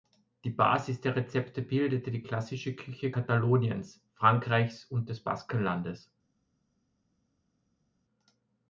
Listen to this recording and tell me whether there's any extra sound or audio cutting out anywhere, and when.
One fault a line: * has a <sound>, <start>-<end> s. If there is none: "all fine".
all fine